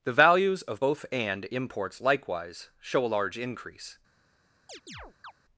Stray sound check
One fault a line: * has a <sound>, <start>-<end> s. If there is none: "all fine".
* has a chirp, 4.7-5.3 s